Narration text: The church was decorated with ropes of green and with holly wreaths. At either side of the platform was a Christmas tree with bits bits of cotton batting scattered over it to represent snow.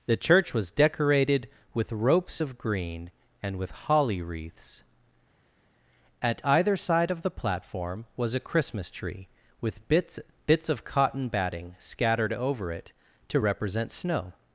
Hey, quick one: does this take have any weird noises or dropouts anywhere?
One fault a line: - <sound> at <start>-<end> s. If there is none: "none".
none